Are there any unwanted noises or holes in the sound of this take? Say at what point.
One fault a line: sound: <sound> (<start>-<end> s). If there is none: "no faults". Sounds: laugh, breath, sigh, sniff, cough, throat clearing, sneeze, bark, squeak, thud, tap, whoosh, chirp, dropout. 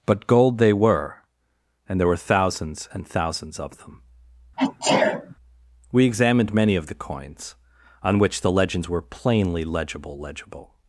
sound: sneeze (4.6-5.4 s)